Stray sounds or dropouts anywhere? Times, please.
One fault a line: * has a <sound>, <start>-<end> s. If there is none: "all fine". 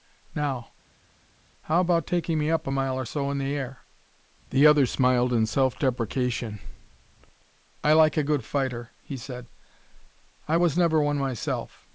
all fine